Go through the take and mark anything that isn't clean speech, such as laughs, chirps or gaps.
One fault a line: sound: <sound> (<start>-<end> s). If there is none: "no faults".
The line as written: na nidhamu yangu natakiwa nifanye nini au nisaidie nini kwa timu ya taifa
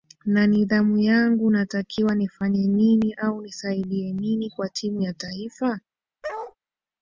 sound: bark (6.2-6.6 s)